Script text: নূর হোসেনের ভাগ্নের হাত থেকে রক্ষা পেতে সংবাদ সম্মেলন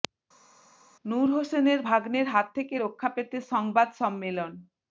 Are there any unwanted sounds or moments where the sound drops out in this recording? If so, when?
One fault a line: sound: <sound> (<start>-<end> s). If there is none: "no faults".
no faults